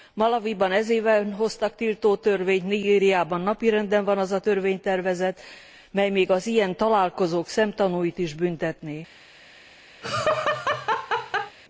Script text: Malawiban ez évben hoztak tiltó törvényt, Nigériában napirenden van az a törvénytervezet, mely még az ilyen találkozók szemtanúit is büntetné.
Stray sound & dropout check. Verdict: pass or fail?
fail